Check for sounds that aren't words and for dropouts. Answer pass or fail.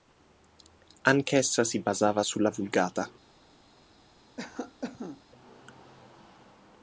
fail